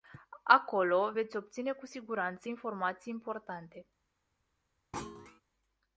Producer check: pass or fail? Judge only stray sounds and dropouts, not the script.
fail